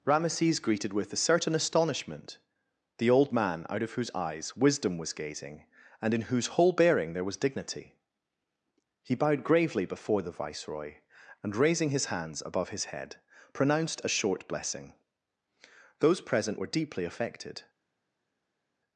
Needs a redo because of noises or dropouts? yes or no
no